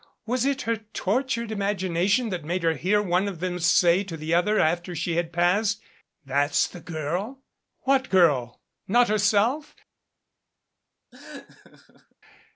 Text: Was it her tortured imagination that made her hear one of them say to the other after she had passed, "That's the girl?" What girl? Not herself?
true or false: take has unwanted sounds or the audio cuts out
true